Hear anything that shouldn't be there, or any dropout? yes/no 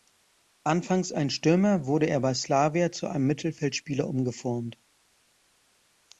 no